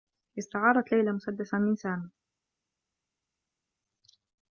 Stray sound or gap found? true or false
false